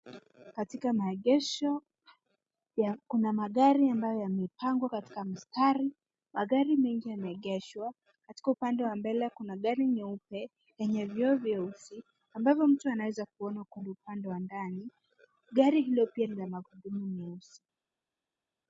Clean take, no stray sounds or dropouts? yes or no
yes